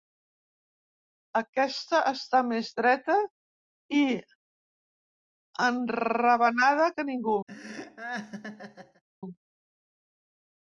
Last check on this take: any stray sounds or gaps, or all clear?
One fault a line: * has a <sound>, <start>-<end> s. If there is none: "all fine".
* has a laugh, 7.5-9.0 s